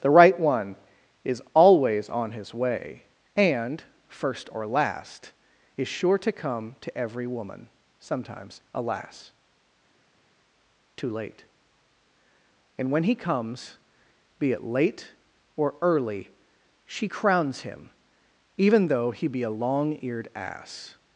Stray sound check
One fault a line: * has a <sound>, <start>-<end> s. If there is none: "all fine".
all fine